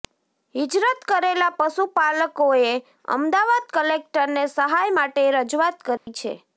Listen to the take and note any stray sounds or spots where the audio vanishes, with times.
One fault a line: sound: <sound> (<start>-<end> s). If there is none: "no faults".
sound: dropout (6.0-6.1 s)